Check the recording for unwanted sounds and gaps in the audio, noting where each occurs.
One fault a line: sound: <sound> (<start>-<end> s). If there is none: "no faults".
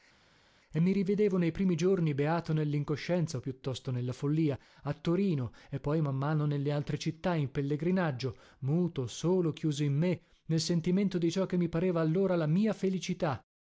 no faults